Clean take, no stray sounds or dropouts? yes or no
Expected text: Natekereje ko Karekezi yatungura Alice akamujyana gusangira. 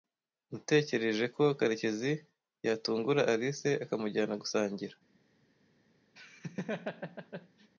no